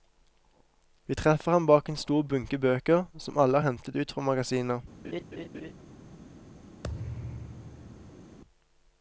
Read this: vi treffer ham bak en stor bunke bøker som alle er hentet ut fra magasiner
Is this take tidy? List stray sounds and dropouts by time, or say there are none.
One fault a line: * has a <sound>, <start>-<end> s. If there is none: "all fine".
* has a laugh, 5.0-5.7 s
* has a thud, 6.8-8.4 s